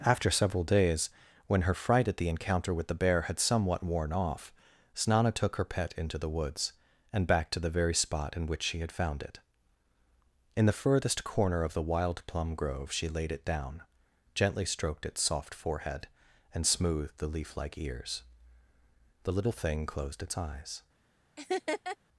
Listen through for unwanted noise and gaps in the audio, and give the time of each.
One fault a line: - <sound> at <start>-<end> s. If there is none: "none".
- laugh at 21.4-22.0 s